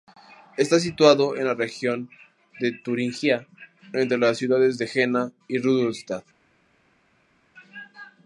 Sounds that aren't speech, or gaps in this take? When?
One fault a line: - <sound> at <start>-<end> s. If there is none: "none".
none